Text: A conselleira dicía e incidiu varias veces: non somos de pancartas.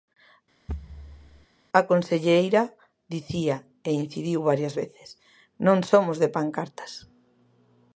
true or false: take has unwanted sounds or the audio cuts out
true